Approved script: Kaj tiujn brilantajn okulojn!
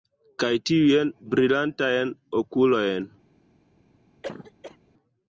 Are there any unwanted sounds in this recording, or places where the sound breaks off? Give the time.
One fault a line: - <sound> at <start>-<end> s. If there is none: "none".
- cough at 4.2-4.8 s